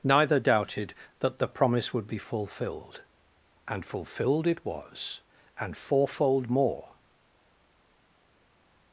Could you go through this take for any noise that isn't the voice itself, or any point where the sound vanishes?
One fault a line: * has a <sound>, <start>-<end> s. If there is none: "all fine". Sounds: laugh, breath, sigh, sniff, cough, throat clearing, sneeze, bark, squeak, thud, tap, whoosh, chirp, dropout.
all fine